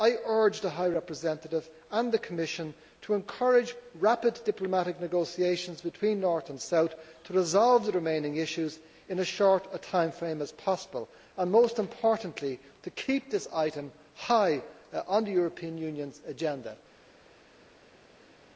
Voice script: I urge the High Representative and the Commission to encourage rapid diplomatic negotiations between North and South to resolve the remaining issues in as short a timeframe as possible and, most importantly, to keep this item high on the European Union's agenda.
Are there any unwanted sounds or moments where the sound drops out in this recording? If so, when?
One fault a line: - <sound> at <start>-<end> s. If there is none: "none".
none